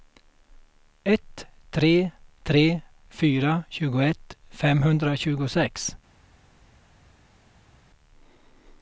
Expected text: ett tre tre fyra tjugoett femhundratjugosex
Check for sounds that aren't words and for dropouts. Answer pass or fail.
pass